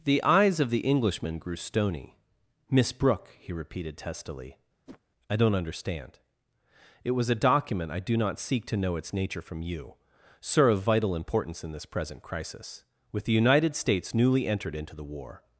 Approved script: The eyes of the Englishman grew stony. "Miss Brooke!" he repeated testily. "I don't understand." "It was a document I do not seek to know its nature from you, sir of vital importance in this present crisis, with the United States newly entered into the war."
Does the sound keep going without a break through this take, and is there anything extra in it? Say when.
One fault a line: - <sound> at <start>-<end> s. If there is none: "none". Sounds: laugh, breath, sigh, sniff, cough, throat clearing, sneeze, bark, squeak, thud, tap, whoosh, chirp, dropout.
- whoosh at 4.9-5.0 s